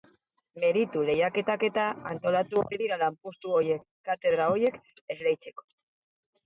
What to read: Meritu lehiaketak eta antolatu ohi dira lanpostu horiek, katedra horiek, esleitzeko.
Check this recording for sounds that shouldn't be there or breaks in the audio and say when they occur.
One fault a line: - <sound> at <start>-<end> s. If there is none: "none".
none